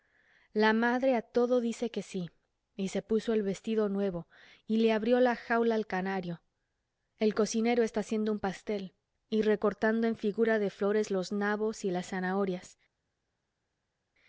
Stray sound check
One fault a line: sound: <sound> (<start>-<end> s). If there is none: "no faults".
no faults